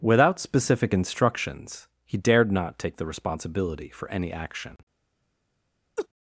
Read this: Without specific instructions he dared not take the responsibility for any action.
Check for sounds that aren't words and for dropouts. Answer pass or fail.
fail